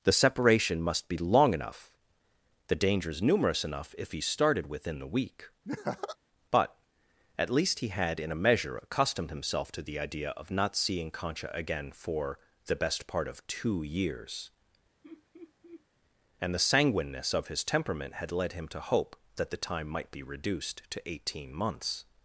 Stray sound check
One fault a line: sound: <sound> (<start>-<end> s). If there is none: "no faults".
sound: laugh (5.6-6.2 s)
sound: laugh (15.0-15.8 s)